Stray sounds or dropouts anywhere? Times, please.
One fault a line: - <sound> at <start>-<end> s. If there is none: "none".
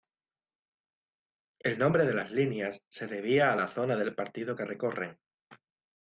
none